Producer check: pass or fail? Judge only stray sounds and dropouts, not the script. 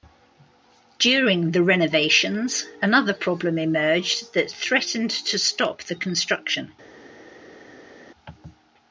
pass